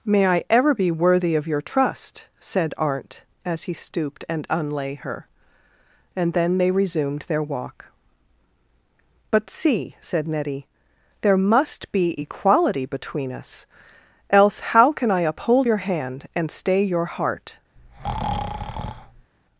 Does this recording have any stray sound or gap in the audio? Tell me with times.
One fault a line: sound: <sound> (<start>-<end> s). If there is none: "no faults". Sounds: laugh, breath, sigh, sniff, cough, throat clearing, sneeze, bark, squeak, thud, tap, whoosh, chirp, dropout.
sound: breath (17.8-19.3 s)